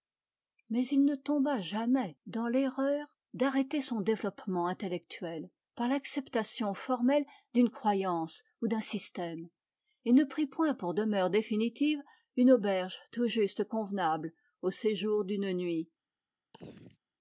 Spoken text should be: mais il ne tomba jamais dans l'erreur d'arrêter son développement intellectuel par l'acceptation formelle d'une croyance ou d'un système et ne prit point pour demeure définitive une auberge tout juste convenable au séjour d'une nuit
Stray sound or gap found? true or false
true